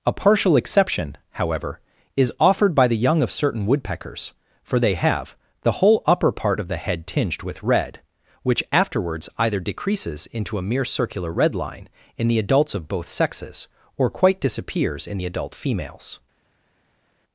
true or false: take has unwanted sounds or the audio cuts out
false